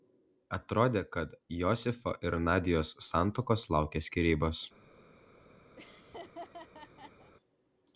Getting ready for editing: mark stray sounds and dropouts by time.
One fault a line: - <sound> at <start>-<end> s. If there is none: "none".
- laugh at 5.8-7.3 s